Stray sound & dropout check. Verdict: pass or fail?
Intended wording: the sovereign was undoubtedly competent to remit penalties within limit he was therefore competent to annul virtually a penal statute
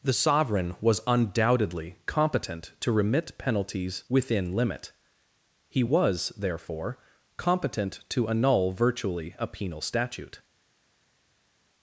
pass